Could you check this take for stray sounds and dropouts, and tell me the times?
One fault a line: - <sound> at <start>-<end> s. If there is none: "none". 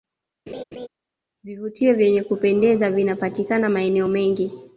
- laugh at 0.5-0.9 s